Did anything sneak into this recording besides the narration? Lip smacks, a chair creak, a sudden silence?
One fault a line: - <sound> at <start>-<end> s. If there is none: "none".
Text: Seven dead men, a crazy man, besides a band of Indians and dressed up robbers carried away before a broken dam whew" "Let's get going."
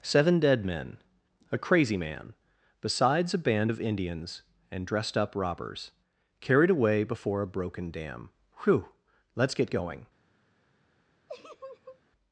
- laugh at 11.3-12.0 s